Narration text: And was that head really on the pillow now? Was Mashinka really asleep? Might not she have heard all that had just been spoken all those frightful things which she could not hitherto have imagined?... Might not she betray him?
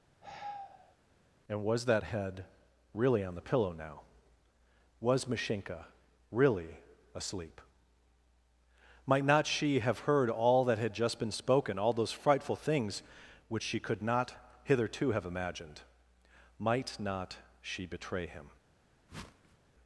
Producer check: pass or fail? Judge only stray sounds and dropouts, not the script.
fail